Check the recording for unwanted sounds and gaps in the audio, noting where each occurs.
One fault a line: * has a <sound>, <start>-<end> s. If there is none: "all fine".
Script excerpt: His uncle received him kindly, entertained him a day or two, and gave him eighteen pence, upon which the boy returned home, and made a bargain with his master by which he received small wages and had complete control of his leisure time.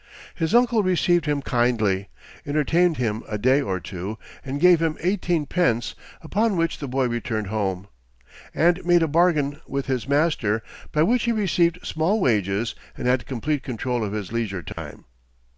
* has a dropout, 14.7-14.8 s